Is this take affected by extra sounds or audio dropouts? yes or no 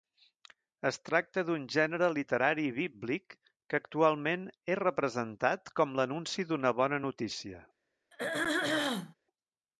yes